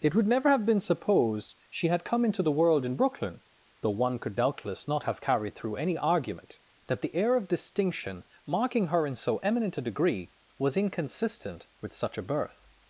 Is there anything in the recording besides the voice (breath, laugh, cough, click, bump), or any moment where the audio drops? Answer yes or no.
no